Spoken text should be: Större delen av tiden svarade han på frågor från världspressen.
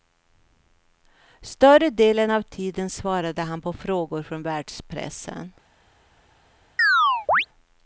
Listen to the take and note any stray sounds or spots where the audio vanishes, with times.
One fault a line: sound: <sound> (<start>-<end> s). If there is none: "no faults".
sound: chirp (6.8-7.5 s)